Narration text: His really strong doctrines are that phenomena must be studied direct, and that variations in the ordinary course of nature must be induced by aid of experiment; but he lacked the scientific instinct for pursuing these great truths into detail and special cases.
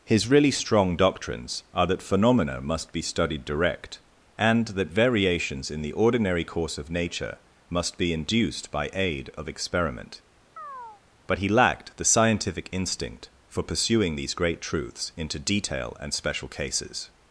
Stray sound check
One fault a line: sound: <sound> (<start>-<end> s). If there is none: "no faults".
sound: chirp (10.6-11.0 s)